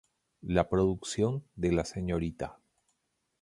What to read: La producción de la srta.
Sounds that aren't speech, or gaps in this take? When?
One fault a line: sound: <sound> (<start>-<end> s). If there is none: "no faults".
no faults